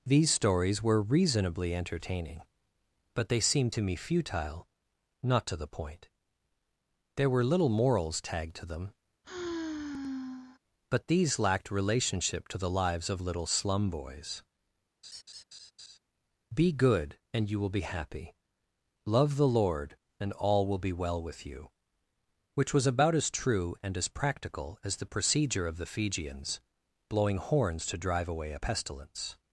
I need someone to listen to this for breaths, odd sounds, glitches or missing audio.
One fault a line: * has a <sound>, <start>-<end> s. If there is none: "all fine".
* has a sigh, 9.2-10.6 s
* has a laugh, 15.0-16.0 s